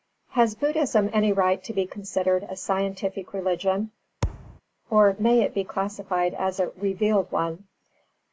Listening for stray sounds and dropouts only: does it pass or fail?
fail